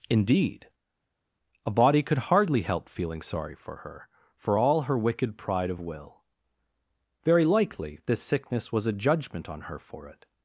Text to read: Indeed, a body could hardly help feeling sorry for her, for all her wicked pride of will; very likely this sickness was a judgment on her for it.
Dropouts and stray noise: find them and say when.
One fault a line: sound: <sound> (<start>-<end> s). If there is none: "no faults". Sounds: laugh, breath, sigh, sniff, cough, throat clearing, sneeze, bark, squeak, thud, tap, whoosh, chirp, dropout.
no faults